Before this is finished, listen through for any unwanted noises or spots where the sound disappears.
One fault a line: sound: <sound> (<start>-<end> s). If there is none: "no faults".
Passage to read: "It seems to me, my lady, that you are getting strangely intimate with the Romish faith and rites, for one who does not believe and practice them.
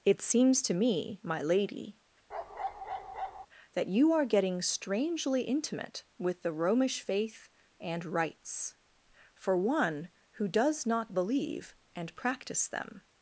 sound: bark (2.3-3.5 s)